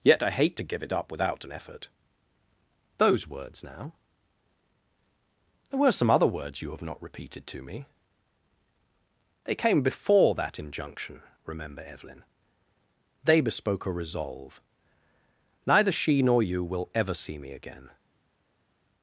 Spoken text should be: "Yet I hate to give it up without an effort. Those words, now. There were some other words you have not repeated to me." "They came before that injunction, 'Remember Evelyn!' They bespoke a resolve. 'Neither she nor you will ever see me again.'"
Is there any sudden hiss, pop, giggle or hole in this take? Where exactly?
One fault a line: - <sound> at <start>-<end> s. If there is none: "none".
none